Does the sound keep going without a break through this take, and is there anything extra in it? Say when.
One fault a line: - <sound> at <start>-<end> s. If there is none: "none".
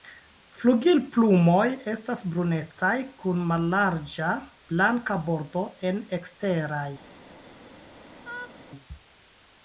- laugh at 8.2-8.6 s